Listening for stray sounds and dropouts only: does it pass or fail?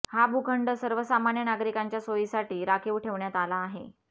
pass